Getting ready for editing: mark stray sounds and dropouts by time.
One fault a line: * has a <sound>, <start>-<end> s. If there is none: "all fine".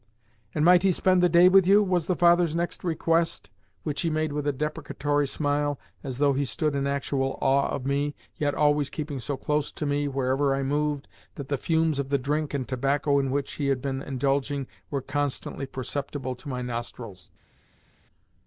all fine